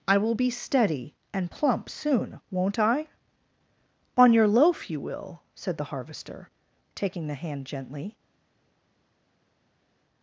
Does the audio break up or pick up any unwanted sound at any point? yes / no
no